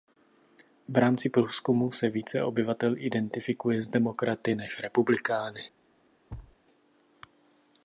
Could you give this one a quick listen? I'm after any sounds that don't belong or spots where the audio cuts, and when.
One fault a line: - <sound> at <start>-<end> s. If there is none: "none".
- thud at 6.3-6.6 s